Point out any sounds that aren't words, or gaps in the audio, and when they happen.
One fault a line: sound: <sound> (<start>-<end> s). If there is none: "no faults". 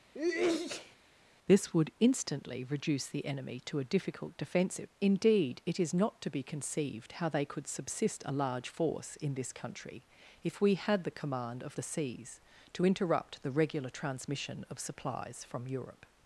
sound: sneeze (0.1-1.0 s)